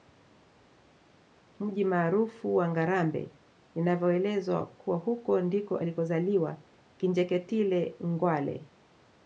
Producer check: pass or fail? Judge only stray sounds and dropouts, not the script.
pass